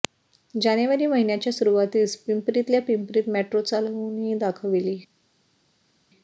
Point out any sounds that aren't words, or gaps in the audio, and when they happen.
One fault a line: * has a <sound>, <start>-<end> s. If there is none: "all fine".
all fine